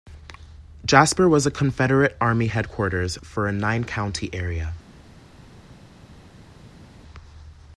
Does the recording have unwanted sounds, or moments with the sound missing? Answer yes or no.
no